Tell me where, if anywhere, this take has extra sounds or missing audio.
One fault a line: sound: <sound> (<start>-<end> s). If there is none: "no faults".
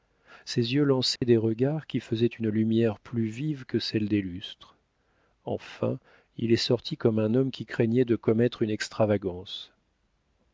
sound: dropout (1.2-1.2 s)